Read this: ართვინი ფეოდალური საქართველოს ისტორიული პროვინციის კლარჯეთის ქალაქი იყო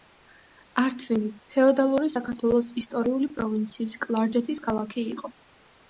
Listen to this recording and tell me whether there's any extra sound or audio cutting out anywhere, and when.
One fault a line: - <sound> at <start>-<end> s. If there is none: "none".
none